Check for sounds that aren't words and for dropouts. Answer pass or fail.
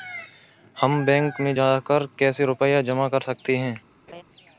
fail